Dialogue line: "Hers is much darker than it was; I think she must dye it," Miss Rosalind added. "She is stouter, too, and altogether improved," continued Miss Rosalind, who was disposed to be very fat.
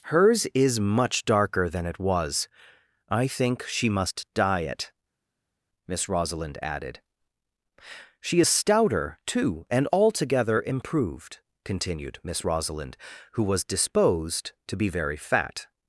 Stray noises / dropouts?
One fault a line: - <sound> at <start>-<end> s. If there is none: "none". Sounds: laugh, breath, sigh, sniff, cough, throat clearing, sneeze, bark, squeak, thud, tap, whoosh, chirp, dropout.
none